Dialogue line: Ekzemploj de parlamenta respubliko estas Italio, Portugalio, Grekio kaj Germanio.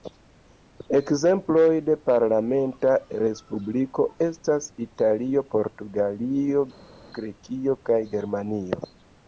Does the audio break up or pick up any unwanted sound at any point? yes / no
no